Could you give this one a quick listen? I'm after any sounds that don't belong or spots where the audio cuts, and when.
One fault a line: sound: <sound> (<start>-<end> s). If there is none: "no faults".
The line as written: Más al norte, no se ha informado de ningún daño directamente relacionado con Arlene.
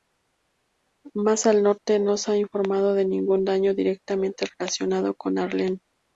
no faults